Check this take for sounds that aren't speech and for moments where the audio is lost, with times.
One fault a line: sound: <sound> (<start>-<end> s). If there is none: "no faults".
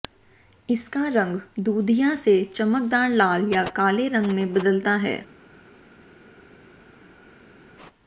no faults